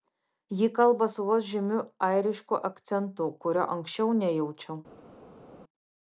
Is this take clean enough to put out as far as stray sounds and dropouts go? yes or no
yes